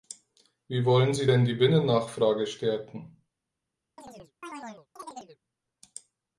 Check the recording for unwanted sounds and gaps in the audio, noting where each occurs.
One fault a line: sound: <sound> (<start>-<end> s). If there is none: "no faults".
sound: chirp (4.0-5.4 s)